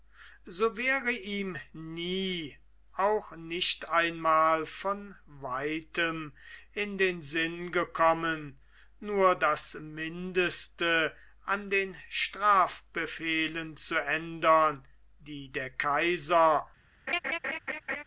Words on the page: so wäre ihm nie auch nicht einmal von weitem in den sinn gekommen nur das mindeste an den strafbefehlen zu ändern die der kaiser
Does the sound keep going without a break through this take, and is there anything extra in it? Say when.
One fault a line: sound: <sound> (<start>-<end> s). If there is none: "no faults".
sound: laugh (17.1-18.0 s)